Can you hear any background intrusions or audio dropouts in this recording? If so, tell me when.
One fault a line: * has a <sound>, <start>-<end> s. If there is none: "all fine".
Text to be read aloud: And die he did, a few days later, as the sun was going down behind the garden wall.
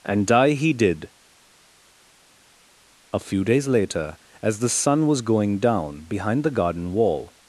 all fine